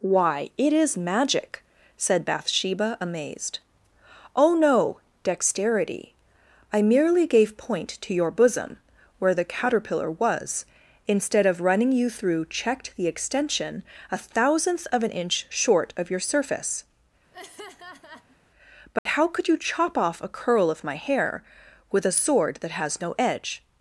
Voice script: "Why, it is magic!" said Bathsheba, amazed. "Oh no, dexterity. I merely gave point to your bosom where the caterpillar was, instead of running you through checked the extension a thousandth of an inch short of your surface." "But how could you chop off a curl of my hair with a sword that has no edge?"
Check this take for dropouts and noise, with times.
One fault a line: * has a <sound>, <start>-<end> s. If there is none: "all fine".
* has a laugh, 17.3-18.4 s
* has a dropout, 19.0-19.1 s